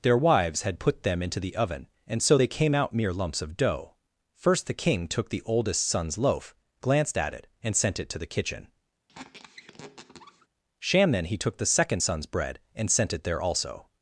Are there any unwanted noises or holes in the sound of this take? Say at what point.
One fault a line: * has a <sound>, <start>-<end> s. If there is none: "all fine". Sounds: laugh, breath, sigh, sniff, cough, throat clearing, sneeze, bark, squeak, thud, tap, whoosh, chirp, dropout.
* has a squeak, 9.1-10.5 s